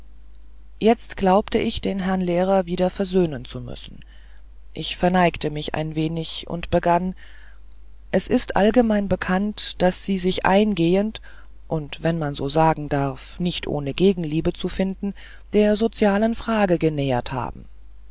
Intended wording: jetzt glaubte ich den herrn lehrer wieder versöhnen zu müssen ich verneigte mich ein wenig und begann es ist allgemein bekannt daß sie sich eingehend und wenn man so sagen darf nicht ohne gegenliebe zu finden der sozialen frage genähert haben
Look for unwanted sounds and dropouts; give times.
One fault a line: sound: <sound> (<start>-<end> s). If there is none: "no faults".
no faults